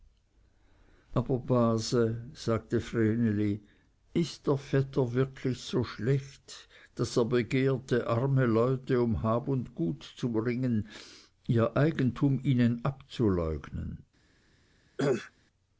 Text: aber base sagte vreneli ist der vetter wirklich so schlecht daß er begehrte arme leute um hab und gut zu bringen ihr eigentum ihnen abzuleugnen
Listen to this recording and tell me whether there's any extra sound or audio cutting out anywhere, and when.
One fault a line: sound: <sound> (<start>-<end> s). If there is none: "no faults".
sound: cough (15.0-15.3 s)